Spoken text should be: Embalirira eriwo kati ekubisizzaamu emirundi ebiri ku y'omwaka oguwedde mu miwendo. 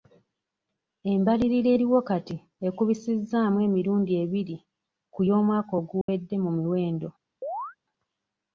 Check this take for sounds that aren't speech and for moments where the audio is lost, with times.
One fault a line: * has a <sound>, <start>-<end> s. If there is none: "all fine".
* has a dropout, 6.0-6.1 s
* has a chirp, 7.4-7.8 s